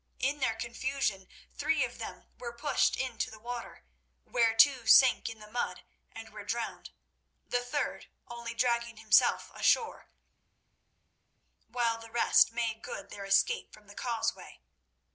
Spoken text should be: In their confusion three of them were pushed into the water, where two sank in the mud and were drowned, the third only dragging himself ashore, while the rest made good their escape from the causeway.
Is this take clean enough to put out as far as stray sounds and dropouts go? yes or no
yes